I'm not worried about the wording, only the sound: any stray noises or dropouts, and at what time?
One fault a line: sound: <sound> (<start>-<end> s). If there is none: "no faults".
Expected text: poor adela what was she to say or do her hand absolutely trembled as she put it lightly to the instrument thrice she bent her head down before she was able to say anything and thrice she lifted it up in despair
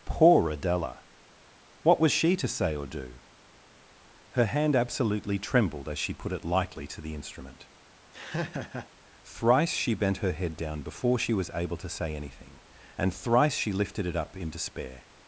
sound: laugh (8.1-8.9 s)